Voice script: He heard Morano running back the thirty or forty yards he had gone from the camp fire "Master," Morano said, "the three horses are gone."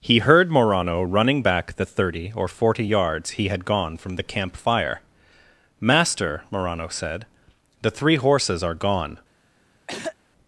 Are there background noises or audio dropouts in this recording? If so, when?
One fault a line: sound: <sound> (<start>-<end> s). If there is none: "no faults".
sound: throat clearing (9.9-10.2 s)